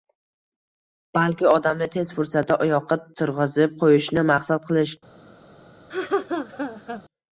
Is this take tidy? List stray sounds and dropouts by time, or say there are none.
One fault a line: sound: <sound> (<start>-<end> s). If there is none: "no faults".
sound: laugh (5.9-7.0 s)